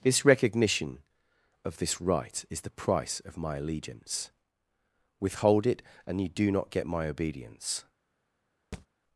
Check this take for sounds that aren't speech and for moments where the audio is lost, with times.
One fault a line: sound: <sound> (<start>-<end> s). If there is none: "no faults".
sound: thud (8.7-8.9 s)